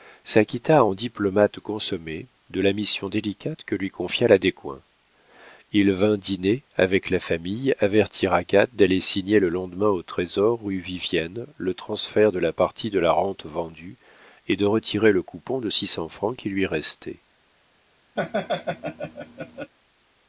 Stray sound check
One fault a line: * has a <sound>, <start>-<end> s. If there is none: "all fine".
* has a laugh, 18.2-19.7 s